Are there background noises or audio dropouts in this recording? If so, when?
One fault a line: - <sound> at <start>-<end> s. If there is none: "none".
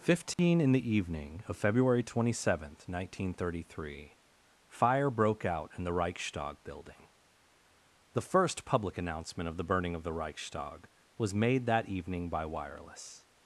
- dropout at 0.3-0.4 s